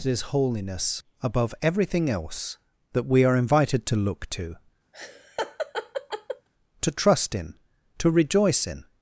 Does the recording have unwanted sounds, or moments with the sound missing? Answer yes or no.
yes